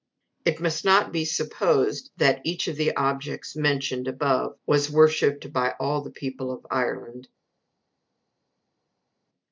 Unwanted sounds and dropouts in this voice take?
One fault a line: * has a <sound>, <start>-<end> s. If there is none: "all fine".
all fine